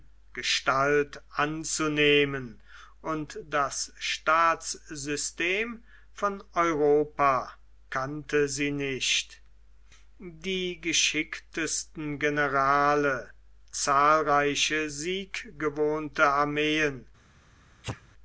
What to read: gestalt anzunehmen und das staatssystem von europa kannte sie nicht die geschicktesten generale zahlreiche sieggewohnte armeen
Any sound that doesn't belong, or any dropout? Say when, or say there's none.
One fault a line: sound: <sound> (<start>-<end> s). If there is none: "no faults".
sound: sneeze (17.8-18.1 s)